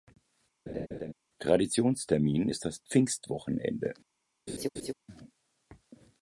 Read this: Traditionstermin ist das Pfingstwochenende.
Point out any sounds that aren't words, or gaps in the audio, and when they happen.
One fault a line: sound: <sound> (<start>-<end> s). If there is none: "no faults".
sound: laugh (0.7-1.1 s)
sound: laugh (4.5-4.9 s)